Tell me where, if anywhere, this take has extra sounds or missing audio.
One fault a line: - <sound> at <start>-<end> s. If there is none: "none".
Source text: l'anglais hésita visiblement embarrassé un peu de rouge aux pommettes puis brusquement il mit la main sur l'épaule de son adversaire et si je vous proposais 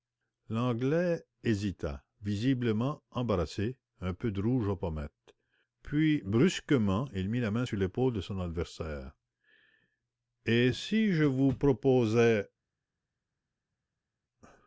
none